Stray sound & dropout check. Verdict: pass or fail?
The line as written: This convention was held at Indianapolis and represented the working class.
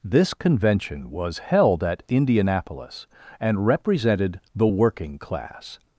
pass